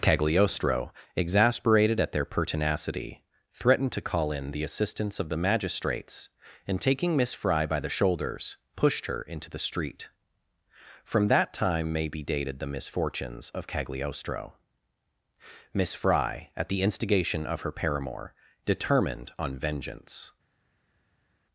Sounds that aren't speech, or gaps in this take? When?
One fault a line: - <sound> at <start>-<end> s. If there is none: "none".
none